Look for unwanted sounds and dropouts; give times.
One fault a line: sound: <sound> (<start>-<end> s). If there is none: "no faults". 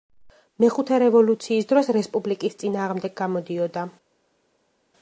no faults